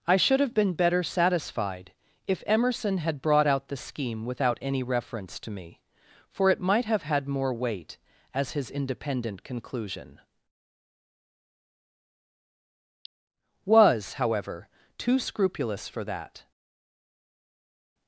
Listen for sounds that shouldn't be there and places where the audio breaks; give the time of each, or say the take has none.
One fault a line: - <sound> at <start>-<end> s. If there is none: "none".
none